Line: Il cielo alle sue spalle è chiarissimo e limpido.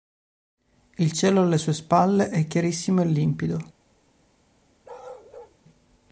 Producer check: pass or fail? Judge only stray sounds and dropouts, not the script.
fail